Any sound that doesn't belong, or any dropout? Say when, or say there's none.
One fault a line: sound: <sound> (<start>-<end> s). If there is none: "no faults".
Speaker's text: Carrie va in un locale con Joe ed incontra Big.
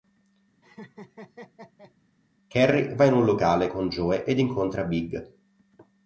sound: laugh (0.6-1.9 s)